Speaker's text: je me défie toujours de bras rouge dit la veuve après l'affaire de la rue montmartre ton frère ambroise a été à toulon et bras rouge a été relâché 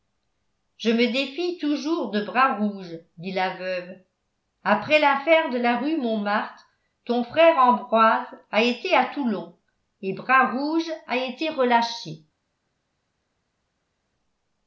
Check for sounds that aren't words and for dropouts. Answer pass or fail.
pass